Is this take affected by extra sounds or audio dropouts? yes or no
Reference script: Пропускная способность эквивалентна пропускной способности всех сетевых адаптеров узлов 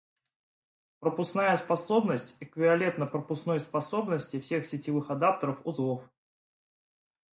no